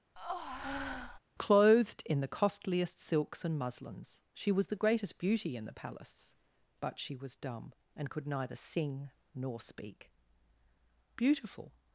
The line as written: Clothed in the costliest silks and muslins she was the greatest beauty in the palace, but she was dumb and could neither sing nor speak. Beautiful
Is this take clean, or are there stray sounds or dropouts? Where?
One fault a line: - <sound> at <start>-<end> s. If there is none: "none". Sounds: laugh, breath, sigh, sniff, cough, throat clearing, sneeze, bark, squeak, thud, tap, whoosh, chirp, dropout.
- breath at 0.2-1.2 s